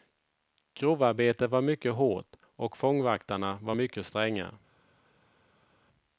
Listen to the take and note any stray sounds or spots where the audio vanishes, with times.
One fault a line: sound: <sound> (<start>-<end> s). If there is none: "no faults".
no faults